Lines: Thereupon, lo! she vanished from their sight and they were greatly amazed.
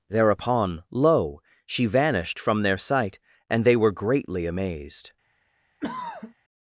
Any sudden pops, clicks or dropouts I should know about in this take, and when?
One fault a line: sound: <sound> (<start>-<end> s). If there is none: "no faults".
sound: throat clearing (5.8-6.3 s)